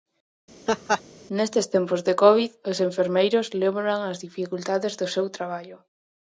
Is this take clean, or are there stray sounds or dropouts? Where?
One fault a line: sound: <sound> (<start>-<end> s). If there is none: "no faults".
sound: laugh (0.7-1.0 s)